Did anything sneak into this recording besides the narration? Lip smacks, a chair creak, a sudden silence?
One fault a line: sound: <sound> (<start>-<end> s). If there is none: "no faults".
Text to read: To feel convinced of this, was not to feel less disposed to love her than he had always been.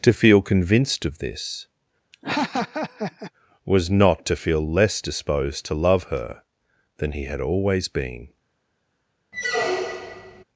sound: laugh (2.1-3.3 s)
sound: squeak (9.3-10.4 s)